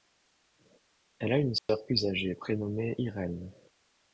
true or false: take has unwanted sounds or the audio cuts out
true